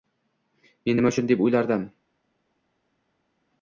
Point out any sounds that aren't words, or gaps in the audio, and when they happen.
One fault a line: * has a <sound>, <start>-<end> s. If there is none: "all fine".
all fine